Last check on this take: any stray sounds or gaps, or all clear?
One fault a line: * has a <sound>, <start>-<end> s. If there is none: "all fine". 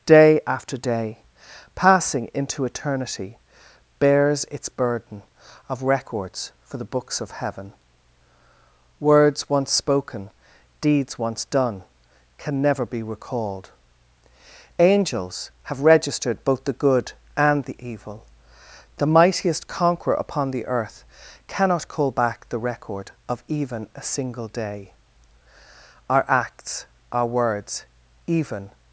all fine